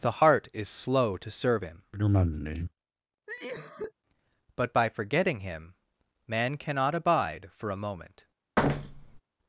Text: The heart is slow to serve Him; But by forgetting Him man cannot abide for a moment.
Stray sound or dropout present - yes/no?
yes